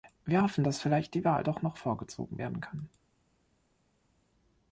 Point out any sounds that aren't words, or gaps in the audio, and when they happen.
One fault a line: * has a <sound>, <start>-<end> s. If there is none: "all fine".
all fine